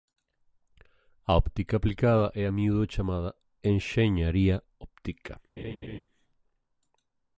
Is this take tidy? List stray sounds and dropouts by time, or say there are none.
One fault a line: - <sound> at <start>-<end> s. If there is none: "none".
- laugh at 5.6-6.0 s